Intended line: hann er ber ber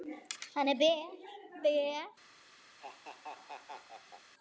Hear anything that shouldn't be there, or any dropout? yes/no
yes